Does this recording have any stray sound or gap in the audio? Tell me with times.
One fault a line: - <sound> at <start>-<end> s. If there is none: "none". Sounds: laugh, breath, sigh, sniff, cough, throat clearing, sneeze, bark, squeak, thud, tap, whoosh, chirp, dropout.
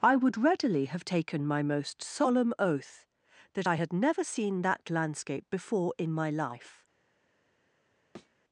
- thud at 8.1-8.3 s